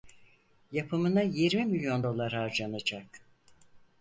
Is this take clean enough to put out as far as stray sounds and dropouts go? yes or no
yes